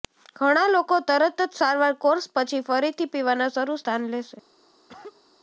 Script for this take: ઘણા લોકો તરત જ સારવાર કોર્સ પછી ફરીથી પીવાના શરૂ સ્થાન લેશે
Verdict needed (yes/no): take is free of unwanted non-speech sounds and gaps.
no